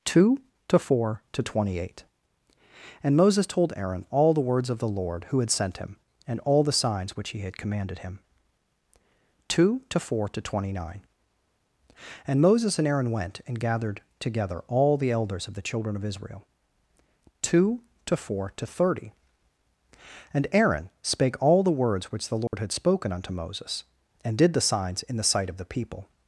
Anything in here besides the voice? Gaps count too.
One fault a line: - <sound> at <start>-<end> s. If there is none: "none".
- dropout at 22.5-22.5 s